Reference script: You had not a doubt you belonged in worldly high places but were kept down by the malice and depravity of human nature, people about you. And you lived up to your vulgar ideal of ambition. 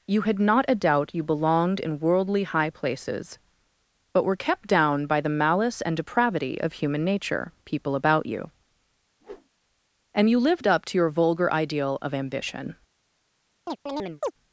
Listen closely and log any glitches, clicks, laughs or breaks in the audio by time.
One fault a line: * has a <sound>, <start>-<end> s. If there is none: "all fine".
* has a whoosh, 9.2-9.5 s
* has a chirp, 13.7-14.3 s